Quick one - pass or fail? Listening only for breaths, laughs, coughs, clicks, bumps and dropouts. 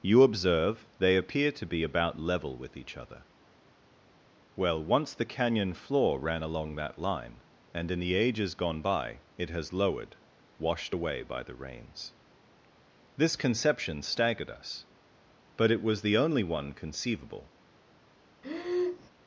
fail